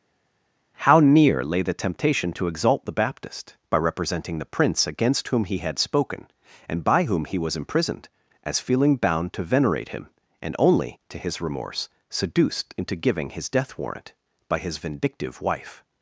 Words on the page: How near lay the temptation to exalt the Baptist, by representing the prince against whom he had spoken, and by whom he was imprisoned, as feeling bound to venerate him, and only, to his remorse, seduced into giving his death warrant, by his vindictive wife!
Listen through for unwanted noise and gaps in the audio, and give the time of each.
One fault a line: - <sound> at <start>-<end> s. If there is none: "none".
none